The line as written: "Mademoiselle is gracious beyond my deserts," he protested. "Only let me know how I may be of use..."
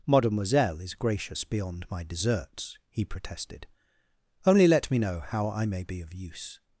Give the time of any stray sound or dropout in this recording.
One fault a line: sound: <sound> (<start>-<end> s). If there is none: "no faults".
no faults